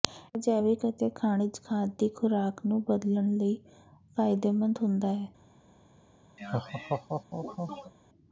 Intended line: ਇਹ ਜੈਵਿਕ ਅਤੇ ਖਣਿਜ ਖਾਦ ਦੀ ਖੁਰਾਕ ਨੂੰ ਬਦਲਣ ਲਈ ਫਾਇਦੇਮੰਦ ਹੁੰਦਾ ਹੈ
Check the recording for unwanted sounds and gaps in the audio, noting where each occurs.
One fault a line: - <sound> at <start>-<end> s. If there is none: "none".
- laugh at 6.4-7.9 s